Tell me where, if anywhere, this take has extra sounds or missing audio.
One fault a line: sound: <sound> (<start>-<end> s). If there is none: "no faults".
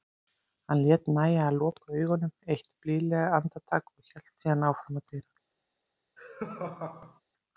sound: laugh (6.2-7.2 s)